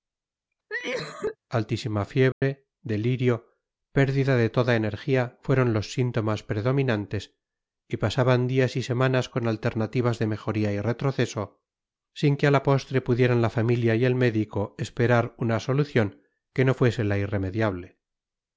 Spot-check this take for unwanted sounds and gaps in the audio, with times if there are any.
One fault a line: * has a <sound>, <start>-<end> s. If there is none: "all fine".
* has a cough, 0.7-1.4 s
* has a dropout, 2.3-2.4 s